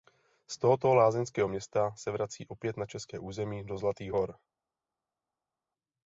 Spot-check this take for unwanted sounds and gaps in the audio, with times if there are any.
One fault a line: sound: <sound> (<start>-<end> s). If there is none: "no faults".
no faults